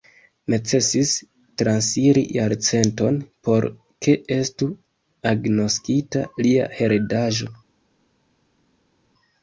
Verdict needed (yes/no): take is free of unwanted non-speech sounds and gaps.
yes